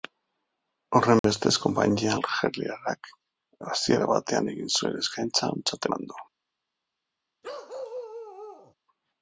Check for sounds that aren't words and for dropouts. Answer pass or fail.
fail